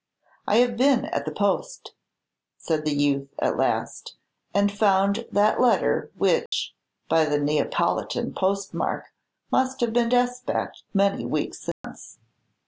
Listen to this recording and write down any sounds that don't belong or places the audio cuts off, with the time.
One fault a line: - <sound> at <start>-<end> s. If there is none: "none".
- dropout at 6.5-6.5 s
- dropout at 11.7-11.8 s